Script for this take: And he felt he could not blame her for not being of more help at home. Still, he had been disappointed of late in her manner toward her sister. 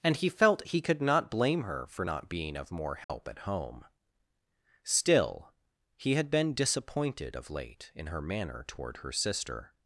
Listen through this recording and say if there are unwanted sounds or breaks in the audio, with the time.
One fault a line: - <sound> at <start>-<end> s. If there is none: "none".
- dropout at 3.0-3.1 s